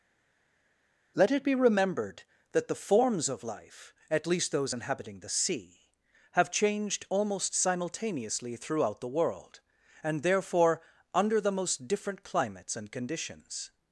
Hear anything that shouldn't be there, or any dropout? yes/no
no